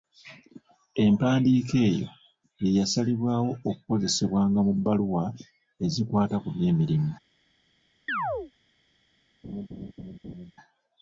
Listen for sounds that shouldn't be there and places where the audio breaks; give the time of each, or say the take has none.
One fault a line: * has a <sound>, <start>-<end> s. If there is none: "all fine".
* has a chirp, 8.1-8.5 s
* has a laugh, 9.4-10.5 s